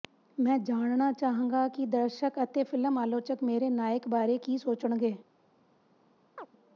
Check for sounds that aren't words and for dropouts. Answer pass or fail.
fail